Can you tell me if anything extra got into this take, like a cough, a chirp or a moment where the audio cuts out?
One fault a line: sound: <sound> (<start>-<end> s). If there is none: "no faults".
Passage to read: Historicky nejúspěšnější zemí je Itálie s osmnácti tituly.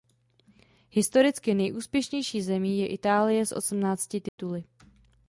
sound: dropout (4.3-4.4 s)